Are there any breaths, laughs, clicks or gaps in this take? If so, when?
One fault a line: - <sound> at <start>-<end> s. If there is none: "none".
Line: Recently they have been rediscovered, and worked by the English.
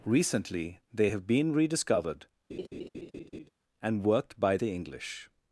- laugh at 2.5-3.5 s